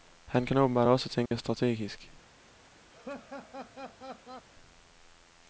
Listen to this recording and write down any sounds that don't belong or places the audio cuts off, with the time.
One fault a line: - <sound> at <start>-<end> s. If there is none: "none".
- dropout at 1.3-1.3 s
- laugh at 2.9-4.5 s